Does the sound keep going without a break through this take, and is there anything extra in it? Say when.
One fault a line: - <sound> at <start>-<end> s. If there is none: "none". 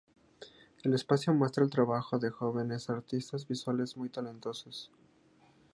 none